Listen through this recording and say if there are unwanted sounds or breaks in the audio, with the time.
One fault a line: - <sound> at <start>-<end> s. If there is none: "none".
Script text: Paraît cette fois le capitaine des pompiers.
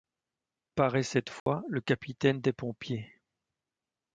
- dropout at 1.4-1.5 s